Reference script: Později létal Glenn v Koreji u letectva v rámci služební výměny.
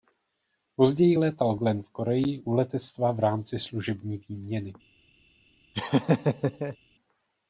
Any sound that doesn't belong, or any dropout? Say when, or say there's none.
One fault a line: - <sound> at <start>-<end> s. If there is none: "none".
- laugh at 5.7-6.8 s